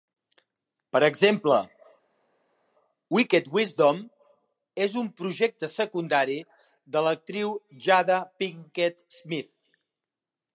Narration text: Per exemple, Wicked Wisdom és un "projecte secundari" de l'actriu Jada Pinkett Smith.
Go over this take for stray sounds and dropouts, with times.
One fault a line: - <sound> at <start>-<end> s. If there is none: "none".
none